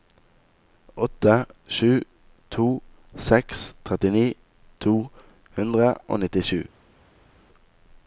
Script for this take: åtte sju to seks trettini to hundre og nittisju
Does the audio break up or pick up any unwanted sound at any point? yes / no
no